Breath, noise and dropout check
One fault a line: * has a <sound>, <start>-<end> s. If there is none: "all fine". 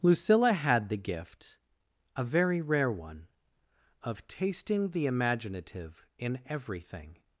all fine